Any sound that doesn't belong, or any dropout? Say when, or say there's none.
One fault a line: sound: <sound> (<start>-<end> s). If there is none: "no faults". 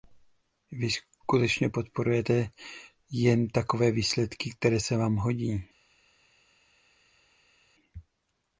no faults